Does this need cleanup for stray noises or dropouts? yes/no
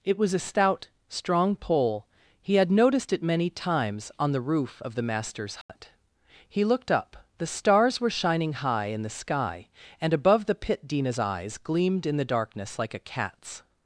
yes